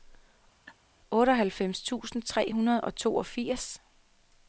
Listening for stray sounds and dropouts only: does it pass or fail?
fail